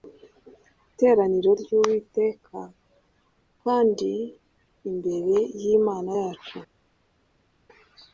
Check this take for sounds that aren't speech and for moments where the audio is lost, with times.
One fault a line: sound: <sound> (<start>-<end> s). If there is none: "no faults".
no faults